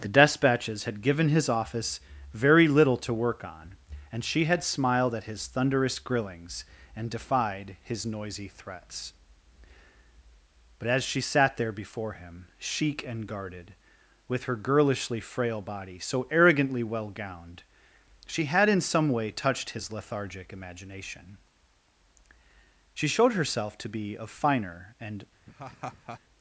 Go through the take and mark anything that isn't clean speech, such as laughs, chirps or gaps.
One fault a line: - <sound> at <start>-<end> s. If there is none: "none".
- laugh at 25.5-26.2 s